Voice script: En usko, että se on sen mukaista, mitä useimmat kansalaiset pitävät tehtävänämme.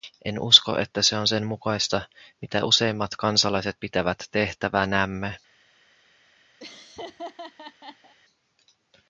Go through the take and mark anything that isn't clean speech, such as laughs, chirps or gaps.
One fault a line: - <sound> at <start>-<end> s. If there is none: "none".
- laugh at 6.6-8.1 s